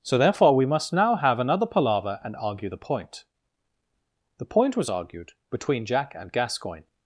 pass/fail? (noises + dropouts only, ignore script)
pass